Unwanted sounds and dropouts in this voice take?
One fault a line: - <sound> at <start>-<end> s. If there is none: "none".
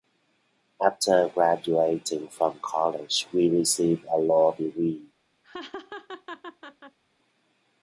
- laugh at 5.4-7.0 s